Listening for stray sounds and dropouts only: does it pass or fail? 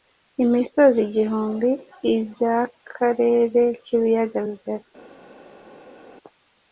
pass